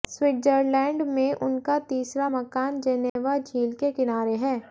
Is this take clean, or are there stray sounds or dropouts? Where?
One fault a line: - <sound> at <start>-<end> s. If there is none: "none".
- dropout at 3.1-3.2 s